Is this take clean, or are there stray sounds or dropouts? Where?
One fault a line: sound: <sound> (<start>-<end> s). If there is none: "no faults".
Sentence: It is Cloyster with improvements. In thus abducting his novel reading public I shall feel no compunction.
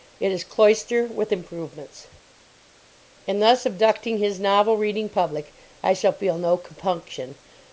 no faults